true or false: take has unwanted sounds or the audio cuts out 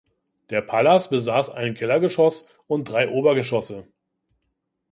false